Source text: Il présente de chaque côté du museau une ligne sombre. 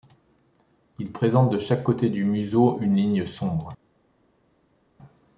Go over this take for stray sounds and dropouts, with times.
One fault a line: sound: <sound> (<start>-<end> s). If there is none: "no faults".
no faults